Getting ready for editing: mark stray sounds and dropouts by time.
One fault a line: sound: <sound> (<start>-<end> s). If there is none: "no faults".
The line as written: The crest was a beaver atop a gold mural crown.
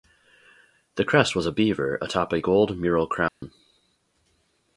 sound: dropout (3.3-3.4 s)